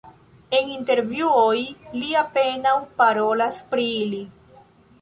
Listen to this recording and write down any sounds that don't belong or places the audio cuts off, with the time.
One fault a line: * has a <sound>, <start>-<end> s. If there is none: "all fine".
all fine